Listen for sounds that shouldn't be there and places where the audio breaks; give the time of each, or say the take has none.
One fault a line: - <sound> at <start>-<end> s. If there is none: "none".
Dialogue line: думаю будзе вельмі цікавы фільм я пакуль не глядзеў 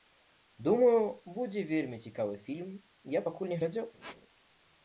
- squeak at 4.0-4.2 s